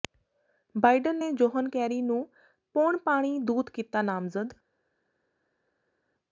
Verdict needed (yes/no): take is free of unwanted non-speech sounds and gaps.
yes